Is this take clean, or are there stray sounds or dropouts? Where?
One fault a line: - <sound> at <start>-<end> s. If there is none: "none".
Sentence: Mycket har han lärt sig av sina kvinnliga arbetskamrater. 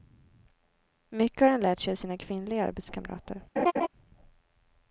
- laugh at 3.6-3.9 s